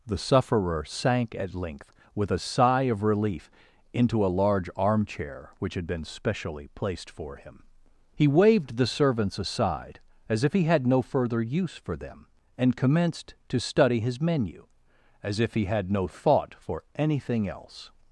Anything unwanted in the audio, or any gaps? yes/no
no